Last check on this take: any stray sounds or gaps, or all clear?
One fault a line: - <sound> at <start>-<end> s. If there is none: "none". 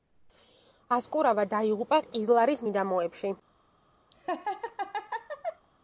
- laugh at 4.1-5.7 s